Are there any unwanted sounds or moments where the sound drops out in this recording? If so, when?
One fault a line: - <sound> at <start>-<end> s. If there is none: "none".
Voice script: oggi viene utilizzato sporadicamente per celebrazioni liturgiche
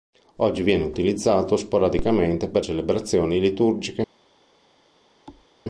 - thud at 5.3-5.5 s